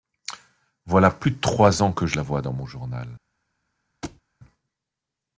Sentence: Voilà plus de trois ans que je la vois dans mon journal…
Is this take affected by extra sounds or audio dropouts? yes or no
yes